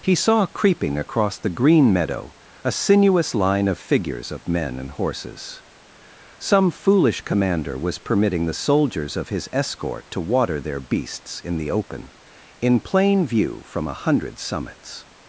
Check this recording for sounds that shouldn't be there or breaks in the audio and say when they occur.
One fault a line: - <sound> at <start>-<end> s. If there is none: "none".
none